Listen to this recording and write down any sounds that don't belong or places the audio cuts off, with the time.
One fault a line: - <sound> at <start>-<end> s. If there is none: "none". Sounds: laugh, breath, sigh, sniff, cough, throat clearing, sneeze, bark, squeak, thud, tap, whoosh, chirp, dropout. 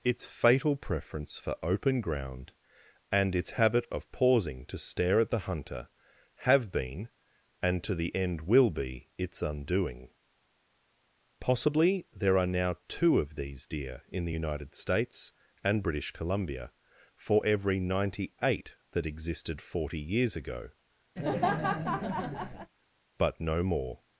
- laugh at 21.2-22.7 s